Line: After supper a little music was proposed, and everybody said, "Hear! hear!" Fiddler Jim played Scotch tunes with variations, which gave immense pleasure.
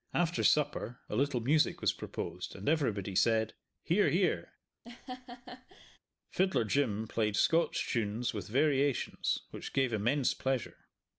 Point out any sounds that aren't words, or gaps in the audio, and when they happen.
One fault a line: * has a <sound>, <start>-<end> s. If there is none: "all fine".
* has a laugh, 4.8-6.0 s